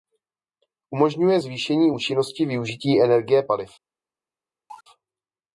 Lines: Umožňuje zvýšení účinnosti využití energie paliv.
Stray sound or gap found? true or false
true